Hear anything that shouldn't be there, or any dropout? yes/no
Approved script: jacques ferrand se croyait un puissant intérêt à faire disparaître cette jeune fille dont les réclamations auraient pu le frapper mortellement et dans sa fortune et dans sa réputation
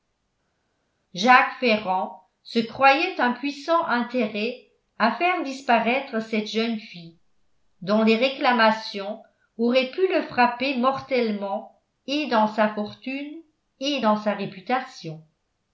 no